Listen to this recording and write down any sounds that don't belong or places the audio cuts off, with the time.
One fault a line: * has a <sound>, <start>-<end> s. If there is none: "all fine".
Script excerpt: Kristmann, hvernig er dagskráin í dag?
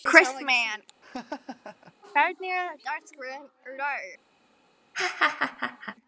* has a laugh, 1.0-1.9 s
* has a laugh, 4.9-6.0 s